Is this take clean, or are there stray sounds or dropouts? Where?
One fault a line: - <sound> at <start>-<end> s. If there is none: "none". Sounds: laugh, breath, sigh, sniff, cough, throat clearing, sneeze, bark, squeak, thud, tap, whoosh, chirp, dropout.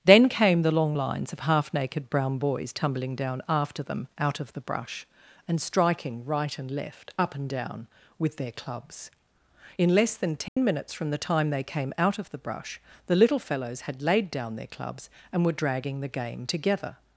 - dropout at 10.5-10.6 s